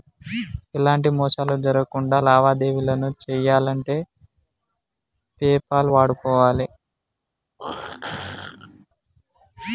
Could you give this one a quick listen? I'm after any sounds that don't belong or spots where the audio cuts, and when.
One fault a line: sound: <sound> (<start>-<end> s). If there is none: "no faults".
sound: throat clearing (7.6-8.9 s)